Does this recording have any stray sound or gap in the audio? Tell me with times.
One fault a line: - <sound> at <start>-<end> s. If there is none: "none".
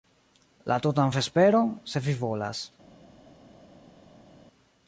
none